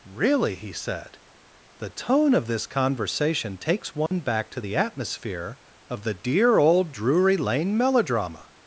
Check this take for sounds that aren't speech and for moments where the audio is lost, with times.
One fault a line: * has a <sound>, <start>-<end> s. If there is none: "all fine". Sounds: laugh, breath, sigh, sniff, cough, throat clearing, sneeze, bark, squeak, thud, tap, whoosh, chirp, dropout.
* has a dropout, 4.1-4.1 s